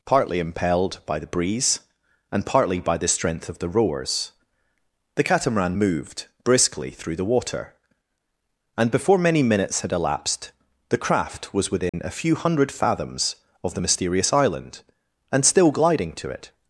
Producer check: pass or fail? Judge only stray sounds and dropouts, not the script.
fail